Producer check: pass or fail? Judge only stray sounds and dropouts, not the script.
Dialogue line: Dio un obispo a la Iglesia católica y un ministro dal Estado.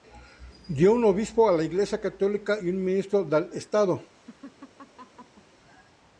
fail